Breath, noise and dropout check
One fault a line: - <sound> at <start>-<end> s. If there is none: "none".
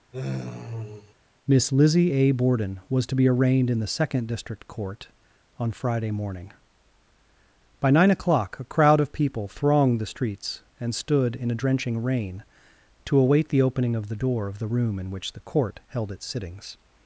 - sigh at 0.1-1.1 s